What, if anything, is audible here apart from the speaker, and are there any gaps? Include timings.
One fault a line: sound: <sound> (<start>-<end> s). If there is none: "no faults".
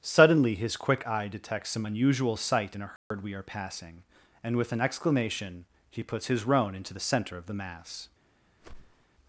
sound: dropout (3.0-3.1 s)
sound: whoosh (8.6-9.1 s)